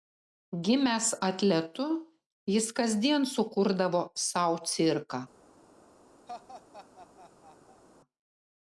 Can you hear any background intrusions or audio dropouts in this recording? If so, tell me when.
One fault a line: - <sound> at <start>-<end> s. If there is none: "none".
- laugh at 6.3-7.8 s